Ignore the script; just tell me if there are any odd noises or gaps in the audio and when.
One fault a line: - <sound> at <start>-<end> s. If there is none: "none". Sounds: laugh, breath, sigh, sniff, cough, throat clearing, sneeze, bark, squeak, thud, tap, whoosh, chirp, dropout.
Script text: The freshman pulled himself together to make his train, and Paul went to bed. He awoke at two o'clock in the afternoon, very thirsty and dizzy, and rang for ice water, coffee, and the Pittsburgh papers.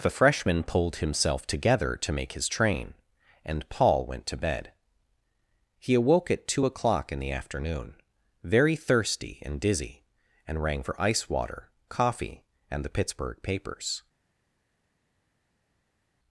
none